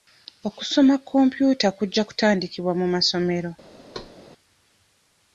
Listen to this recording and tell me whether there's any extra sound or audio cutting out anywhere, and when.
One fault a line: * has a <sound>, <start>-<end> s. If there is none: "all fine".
* has a thud, 3.9-4.1 s